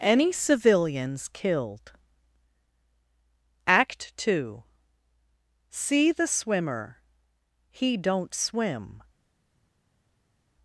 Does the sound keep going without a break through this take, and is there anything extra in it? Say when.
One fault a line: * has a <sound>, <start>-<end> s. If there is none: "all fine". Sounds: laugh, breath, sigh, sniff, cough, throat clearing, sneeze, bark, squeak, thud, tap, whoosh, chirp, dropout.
all fine